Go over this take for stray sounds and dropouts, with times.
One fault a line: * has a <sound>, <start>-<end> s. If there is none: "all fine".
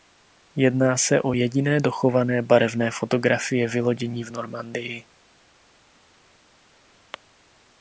all fine